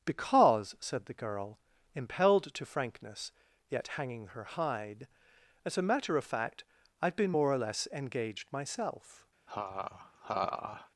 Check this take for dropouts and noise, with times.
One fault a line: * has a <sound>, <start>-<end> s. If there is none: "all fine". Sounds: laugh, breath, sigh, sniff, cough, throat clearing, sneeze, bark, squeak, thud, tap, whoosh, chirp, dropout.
* has a laugh, 9.5-10.9 s